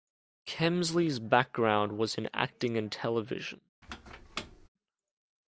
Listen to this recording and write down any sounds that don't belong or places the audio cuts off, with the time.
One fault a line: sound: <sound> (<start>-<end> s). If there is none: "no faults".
sound: squeak (3.8-4.7 s)